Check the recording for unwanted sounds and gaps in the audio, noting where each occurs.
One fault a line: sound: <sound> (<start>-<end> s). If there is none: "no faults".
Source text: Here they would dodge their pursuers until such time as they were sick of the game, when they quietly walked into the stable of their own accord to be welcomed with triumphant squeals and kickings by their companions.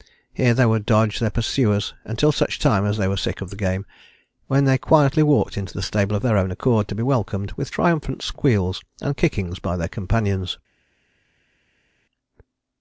no faults